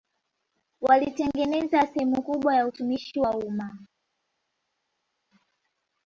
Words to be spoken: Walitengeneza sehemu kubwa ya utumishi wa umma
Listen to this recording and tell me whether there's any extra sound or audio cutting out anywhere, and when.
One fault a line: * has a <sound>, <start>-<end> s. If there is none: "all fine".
all fine